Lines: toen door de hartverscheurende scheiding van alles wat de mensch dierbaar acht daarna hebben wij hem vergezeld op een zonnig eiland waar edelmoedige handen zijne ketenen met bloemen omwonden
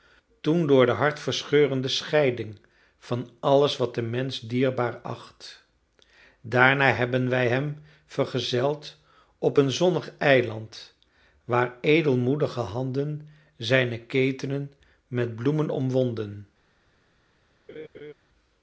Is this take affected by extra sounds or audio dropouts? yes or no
yes